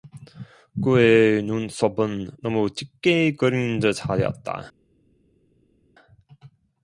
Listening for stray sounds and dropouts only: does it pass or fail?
pass